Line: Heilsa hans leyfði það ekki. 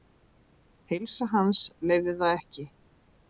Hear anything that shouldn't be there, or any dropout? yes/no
no